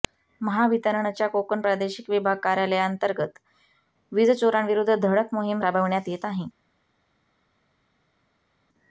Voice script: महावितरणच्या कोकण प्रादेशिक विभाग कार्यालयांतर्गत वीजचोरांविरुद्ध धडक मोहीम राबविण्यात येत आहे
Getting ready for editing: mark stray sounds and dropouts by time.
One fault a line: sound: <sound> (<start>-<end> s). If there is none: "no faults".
no faults